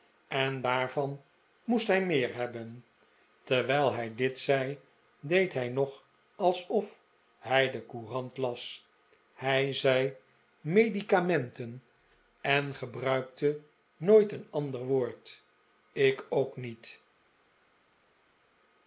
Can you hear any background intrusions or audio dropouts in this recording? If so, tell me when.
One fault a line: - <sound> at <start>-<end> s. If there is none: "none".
none